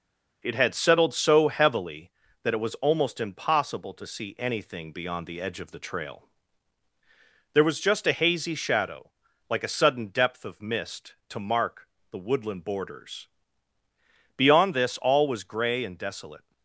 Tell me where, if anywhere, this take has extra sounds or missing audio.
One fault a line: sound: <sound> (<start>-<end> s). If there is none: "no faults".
no faults